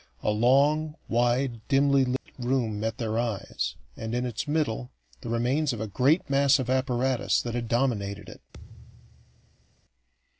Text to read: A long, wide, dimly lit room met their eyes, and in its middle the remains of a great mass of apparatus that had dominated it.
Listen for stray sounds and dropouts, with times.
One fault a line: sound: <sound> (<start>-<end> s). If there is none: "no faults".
sound: dropout (2.2-2.3 s)
sound: thud (8.5-9.8 s)